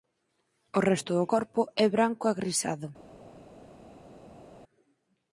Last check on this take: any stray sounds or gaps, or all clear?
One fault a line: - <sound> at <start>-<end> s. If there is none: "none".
none